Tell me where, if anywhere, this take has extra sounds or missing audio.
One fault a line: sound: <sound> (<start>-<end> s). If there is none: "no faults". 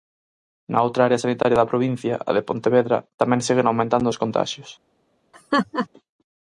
sound: laugh (5.3-5.9 s)